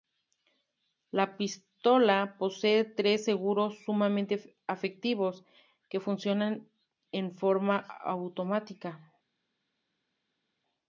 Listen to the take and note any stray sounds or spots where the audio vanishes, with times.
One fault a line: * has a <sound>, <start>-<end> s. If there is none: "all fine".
all fine